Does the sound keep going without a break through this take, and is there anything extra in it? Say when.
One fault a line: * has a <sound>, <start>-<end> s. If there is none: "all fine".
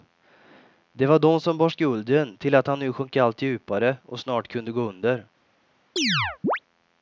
* has a chirp, 6.0-6.6 s